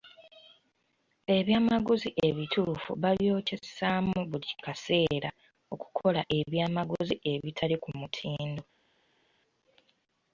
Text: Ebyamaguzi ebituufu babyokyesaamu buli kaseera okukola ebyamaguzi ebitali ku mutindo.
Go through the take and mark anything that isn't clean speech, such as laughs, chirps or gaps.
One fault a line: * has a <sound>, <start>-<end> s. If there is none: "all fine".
all fine